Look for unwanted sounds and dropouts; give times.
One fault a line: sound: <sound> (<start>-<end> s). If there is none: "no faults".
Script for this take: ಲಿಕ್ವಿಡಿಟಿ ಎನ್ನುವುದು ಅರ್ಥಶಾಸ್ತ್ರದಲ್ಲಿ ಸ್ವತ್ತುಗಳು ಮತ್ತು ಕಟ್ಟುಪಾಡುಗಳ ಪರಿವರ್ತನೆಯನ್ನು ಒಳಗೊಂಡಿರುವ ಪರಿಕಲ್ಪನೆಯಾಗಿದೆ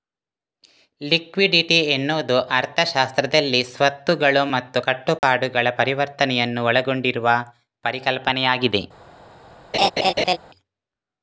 sound: dropout (5.2-5.2 s)
sound: laugh (9.7-10.4 s)